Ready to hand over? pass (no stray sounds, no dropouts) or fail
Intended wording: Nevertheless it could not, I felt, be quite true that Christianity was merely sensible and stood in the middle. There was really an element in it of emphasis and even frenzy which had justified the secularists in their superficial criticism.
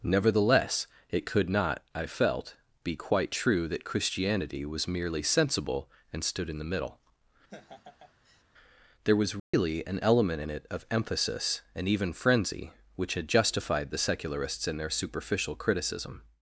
fail